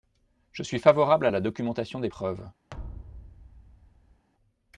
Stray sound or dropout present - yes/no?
yes